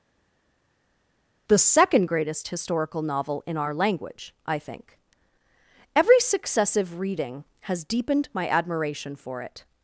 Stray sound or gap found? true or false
false